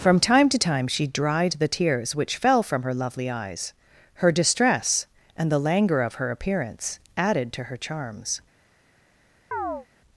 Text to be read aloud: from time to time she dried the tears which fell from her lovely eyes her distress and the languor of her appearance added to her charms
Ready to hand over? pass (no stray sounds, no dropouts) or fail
fail